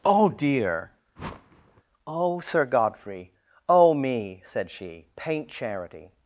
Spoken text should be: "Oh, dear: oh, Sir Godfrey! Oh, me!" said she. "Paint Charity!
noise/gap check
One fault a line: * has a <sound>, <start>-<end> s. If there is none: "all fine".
* has a whoosh, 1.2-1.8 s